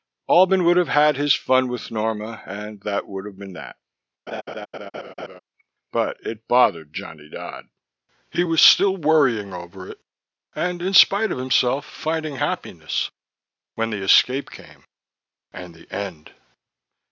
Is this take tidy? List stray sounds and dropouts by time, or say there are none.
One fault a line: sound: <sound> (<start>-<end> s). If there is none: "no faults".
sound: laugh (4.3-5.4 s)